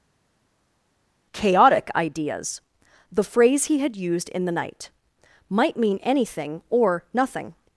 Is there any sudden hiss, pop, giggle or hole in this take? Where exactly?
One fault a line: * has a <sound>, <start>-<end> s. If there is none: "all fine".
all fine